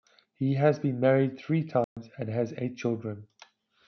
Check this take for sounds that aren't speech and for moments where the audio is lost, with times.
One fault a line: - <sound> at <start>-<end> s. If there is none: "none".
- dropout at 1.8-2.0 s